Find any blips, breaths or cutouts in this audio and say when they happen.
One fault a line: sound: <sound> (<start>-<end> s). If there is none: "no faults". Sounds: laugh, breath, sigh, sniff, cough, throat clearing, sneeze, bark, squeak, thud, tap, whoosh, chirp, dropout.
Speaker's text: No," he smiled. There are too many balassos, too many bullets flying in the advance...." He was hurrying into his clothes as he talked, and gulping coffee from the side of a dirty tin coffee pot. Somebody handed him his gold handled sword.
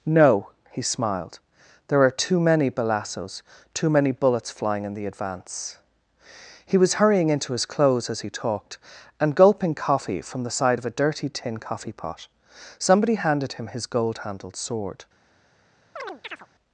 sound: chirp (16.0-16.5 s)